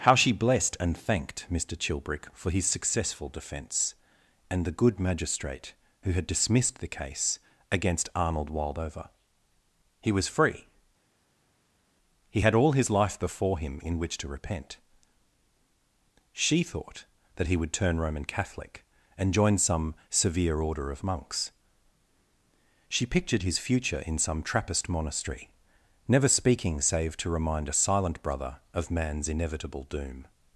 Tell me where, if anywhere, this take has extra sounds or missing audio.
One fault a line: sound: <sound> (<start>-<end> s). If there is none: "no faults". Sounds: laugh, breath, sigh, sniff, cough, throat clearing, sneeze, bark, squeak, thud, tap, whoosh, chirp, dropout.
no faults